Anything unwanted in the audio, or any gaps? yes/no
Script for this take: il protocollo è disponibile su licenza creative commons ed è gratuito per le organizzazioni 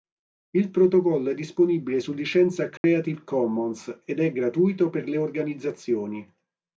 yes